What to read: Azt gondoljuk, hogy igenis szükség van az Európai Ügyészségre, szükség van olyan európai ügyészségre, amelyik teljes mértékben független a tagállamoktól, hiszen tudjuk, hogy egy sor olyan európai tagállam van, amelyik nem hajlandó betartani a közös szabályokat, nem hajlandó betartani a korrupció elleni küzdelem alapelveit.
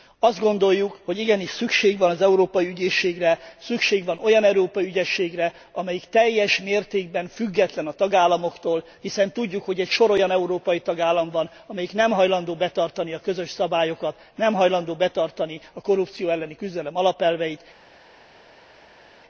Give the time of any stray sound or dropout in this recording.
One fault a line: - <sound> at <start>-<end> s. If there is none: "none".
none